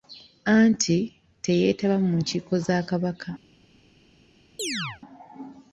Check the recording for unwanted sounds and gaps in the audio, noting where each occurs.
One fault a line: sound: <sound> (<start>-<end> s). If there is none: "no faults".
sound: chirp (4.6-5.0 s)